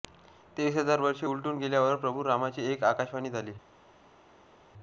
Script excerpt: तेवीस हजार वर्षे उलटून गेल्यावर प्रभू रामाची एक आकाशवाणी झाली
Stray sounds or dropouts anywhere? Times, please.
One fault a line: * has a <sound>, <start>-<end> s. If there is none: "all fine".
all fine